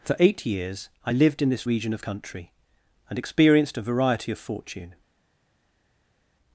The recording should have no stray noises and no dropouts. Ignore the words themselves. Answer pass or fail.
pass